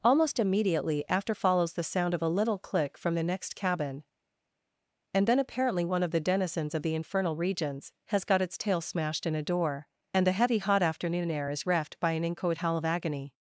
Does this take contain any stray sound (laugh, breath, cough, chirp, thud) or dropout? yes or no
no